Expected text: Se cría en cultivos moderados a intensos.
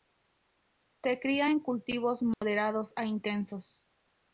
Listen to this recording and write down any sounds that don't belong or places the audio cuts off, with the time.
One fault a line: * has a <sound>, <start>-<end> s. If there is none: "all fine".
* has a dropout, 2.3-2.4 s